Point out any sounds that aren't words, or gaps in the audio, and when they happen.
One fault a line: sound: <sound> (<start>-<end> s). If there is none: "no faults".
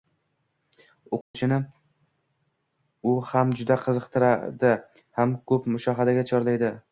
sound: dropout (1.2-1.3 s)